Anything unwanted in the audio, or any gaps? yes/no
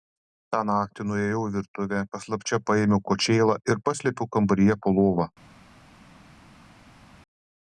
no